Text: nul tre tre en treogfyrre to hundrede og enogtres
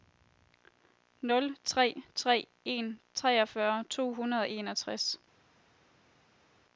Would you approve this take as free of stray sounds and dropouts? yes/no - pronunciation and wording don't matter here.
yes